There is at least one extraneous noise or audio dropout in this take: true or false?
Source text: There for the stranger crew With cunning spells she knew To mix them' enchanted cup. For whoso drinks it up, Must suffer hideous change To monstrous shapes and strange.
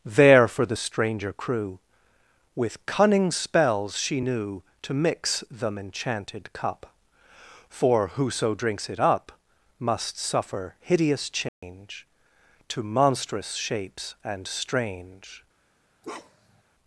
true